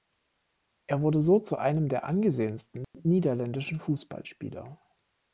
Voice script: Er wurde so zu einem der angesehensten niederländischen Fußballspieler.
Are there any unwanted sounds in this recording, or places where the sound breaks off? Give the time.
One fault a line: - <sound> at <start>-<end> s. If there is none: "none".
- dropout at 2.8-2.9 s